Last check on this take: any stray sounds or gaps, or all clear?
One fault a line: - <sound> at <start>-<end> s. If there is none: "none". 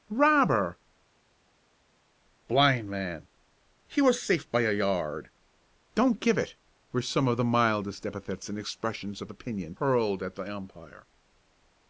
none